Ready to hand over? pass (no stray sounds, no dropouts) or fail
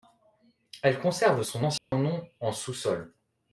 fail